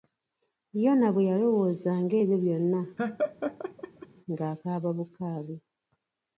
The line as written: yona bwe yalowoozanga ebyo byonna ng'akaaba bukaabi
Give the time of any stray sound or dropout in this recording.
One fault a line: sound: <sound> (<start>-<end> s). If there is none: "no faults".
sound: laugh (3.0-4.1 s)